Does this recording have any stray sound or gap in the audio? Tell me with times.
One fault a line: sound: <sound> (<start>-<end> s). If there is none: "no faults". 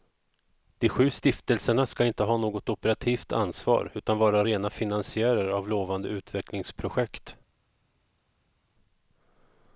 no faults